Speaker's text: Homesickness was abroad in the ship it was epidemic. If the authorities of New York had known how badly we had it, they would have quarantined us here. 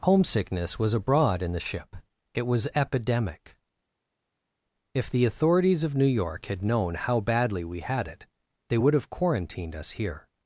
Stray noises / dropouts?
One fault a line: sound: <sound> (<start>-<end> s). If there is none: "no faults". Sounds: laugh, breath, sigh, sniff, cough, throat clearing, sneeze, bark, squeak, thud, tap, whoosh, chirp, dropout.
no faults